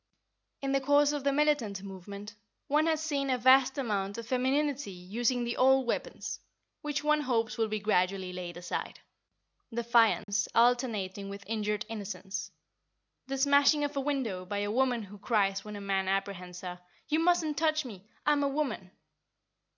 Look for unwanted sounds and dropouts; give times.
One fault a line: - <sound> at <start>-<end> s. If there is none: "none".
- dropout at 10.2-10.3 s